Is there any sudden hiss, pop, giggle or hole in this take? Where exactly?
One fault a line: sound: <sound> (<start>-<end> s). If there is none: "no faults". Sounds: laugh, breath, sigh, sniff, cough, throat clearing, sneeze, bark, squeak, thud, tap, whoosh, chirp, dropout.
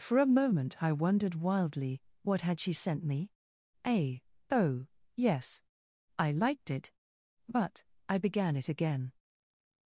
no faults